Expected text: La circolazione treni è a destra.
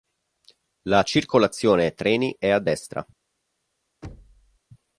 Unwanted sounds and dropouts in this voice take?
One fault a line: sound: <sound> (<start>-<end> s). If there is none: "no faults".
sound: thud (4.0-4.6 s)